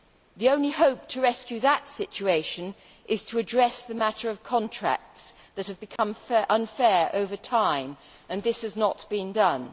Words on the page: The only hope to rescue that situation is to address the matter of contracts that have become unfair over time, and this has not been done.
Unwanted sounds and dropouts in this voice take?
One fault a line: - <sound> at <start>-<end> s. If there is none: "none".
- dropout at 6.0-6.0 s